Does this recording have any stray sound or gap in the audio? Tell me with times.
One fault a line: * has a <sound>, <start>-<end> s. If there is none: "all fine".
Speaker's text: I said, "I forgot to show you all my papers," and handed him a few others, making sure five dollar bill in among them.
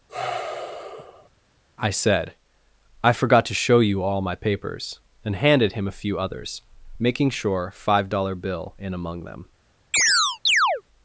* has a sigh, 0.1-1.3 s
* has a chirp, 9.9-10.8 s